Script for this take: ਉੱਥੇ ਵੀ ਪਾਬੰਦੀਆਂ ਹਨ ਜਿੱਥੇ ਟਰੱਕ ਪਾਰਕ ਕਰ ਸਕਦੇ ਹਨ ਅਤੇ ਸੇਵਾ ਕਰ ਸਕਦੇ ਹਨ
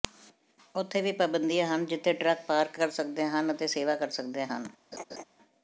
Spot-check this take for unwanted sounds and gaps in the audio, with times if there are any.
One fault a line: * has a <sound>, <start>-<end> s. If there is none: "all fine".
* has a laugh, 4.9-5.2 s